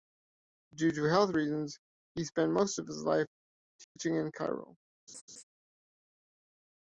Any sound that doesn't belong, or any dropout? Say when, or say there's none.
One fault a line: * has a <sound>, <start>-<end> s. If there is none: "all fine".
* has a dropout, 3.8-4.0 s
* has a laugh, 5.1-5.4 s